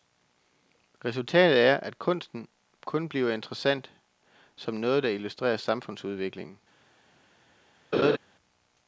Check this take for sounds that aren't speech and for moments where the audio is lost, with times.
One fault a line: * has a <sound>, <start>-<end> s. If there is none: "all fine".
* has a laugh, 7.9-8.2 s